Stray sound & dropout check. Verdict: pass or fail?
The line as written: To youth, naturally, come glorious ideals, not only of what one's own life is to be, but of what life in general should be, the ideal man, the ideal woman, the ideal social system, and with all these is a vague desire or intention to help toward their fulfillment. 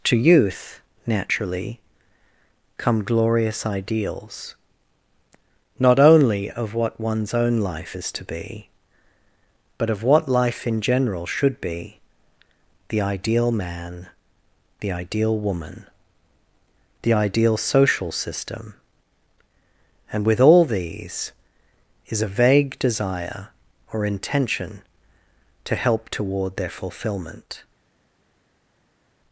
pass